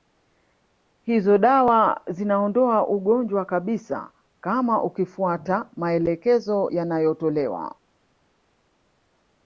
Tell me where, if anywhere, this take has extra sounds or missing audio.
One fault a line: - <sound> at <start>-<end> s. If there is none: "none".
none